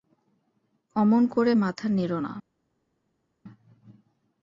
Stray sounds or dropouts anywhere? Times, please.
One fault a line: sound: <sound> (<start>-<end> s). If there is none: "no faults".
no faults